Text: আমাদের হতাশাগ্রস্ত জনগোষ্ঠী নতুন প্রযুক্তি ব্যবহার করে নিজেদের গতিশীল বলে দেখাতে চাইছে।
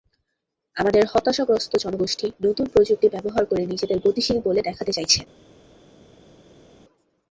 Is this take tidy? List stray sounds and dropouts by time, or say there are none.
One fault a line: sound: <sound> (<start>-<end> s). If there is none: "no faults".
no faults